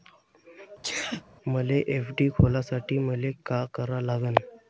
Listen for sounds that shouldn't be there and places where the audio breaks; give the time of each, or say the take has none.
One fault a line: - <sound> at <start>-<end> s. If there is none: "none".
- sneeze at 0.8-1.2 s